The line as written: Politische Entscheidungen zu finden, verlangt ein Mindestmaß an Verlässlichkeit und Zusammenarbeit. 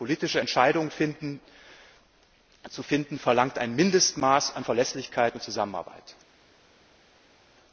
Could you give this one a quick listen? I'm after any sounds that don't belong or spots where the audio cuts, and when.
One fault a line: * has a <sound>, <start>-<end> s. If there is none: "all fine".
all fine